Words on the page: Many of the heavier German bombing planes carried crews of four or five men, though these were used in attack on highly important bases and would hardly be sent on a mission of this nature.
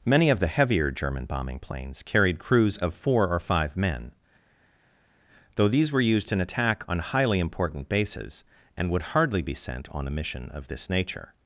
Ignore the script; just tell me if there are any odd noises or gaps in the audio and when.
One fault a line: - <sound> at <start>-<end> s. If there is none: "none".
none